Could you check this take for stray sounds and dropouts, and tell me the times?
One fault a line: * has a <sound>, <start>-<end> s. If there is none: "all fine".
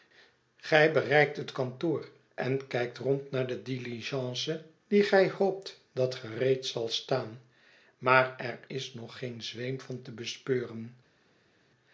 all fine